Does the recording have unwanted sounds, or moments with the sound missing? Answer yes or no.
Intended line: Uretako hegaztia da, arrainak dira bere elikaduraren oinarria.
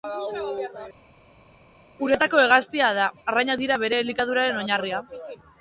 no